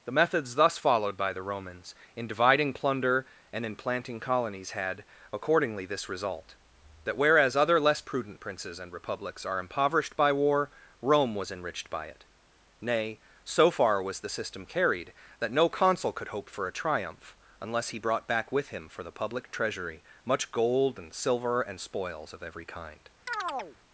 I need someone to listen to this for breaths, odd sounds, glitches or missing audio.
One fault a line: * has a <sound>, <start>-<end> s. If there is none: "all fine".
* has a chirp, 23.3-23.8 s